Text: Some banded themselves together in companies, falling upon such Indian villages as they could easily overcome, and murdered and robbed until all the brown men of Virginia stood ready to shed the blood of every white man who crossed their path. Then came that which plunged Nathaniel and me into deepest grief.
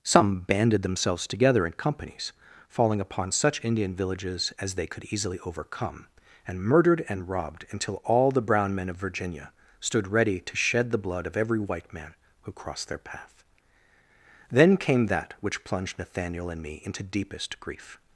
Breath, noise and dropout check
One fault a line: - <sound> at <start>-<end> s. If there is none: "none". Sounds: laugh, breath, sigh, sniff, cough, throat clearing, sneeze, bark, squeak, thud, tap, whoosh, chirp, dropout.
none